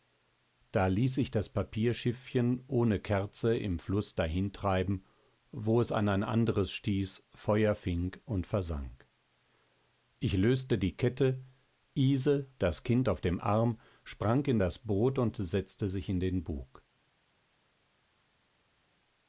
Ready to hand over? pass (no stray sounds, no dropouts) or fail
pass